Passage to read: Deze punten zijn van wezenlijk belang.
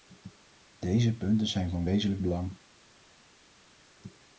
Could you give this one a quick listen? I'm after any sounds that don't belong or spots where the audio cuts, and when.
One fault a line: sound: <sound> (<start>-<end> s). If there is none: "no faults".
no faults